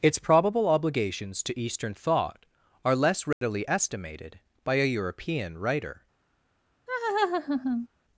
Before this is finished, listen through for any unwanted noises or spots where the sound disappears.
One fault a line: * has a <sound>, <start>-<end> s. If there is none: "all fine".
* has a dropout, 3.3-3.4 s
* has a laugh, 6.9-7.9 s